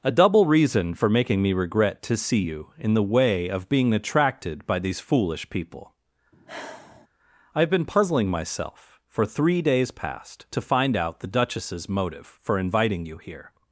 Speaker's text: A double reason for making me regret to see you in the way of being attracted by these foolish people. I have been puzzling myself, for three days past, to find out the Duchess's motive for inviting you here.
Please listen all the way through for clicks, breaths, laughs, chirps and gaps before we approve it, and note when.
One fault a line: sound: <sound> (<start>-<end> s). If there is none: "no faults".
sound: sigh (6.3-7.1 s)